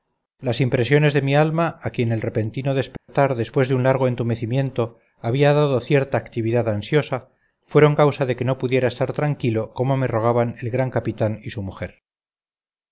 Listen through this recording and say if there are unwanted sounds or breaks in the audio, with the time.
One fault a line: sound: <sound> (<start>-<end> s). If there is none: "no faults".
sound: dropout (3.0-3.1 s)